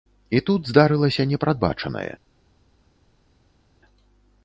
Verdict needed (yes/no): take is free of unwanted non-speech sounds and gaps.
yes